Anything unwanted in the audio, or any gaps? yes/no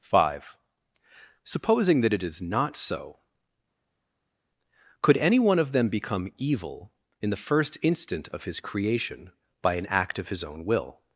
no